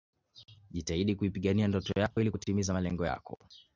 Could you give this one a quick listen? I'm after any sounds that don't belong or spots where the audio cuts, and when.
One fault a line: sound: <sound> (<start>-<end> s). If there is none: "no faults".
sound: dropout (2.1-2.2 s)